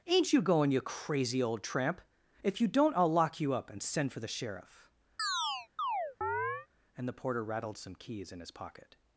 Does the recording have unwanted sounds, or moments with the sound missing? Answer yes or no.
yes